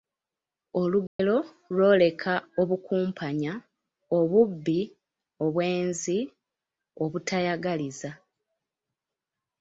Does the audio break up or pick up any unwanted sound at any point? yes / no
yes